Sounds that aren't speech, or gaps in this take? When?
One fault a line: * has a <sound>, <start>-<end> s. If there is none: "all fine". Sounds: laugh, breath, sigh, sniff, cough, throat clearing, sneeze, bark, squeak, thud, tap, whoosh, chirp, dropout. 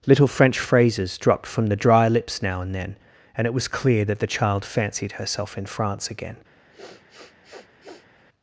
* has a sniff, 6.7-8.2 s